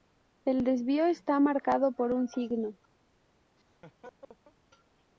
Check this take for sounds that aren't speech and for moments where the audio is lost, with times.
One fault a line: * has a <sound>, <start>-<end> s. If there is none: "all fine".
* has a laugh, 3.6-4.6 s